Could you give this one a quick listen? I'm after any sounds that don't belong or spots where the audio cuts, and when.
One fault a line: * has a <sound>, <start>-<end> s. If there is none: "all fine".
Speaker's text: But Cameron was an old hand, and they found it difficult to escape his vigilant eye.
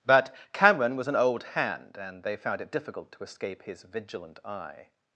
all fine